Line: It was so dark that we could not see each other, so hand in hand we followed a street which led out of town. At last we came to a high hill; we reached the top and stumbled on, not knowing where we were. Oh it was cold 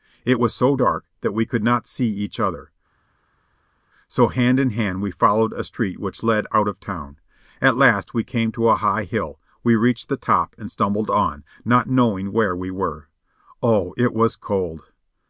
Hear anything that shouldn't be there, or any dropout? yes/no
no